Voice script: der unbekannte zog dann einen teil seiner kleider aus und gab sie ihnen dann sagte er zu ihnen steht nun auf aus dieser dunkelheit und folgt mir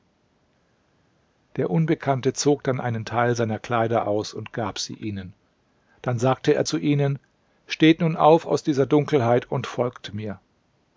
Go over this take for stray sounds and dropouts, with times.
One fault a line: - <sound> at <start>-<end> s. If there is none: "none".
none